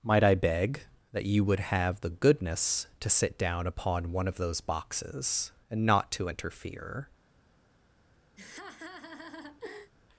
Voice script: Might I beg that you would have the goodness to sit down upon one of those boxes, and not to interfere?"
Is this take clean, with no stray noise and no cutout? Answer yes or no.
no